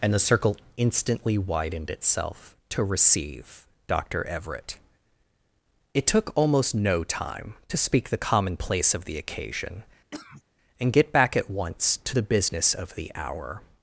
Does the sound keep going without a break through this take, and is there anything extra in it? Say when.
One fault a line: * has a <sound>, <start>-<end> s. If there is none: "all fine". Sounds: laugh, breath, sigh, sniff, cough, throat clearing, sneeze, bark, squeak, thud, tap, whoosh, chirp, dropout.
* has a cough, 10.1-10.4 s